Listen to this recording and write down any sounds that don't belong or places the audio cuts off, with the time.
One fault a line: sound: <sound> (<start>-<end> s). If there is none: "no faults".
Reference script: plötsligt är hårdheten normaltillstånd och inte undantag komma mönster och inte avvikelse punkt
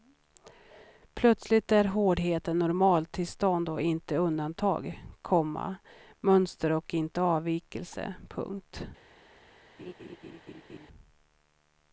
sound: laugh (9.8-10.9 s)